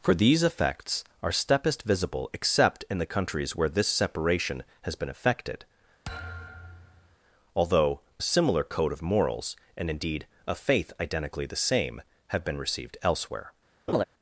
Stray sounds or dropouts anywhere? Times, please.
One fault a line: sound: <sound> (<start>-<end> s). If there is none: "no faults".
sound: thud (6.0-7.2 s)
sound: laugh (13.9-14.0 s)